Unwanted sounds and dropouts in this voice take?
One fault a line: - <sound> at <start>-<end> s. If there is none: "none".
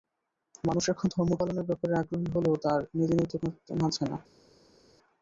none